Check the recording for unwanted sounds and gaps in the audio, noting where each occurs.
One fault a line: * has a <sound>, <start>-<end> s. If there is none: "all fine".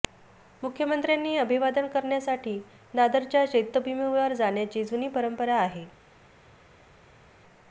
all fine